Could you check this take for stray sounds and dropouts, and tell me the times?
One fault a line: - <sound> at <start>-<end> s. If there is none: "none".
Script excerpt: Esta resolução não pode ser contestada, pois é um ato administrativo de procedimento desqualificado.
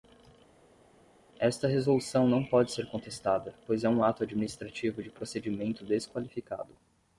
none